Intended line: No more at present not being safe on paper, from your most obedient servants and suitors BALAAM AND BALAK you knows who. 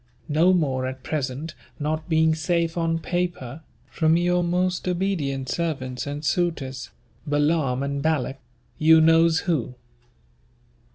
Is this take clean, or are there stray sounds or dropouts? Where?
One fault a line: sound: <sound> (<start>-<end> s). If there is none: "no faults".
no faults